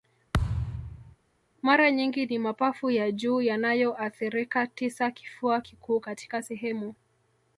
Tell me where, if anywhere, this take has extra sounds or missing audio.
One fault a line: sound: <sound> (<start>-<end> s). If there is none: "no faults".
sound: thud (0.3-1.2 s)